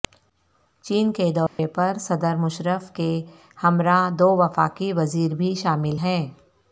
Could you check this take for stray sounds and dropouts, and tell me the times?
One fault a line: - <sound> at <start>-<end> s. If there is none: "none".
- dropout at 1.5-1.6 s